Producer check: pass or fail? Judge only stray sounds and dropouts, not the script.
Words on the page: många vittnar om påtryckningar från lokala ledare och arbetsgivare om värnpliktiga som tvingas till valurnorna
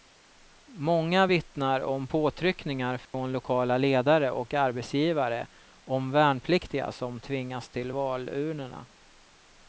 fail